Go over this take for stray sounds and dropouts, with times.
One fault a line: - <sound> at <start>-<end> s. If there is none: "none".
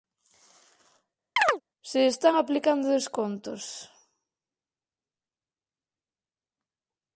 - chirp at 1.4-1.6 s